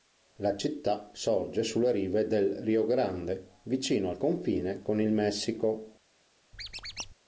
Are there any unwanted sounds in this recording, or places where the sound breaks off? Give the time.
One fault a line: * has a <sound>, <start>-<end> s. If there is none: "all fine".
* has a squeak, 6.5-7.1 s